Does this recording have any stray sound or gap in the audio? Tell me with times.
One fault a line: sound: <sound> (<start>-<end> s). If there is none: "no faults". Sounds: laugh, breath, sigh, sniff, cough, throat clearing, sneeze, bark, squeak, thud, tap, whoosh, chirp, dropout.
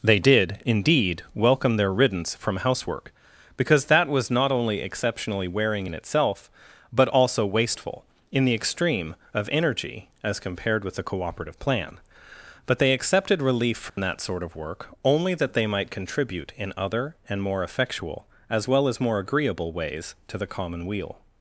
sound: dropout (13.9-14.0 s)